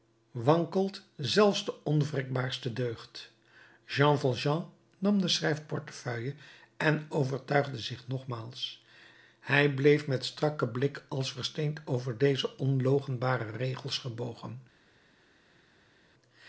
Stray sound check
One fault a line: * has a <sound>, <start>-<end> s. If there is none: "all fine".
all fine